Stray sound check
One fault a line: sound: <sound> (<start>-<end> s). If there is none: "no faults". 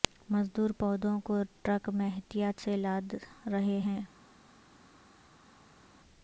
no faults